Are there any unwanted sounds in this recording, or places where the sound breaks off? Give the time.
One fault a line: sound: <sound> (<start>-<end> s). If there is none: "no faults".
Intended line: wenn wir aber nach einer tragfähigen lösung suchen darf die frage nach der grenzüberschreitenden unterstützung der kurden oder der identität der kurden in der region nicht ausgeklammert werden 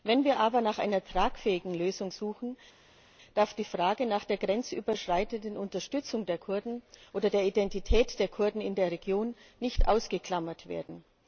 no faults